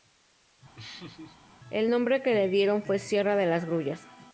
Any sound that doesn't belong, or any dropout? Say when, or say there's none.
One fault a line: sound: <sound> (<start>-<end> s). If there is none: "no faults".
sound: laugh (0.8-1.4 s)